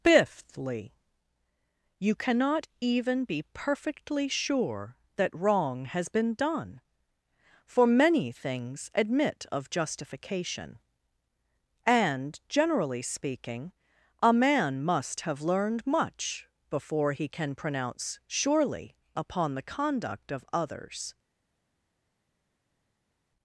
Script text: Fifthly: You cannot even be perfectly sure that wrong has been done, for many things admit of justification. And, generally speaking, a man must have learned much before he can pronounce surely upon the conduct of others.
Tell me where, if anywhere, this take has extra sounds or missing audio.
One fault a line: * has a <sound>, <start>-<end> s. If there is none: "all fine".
all fine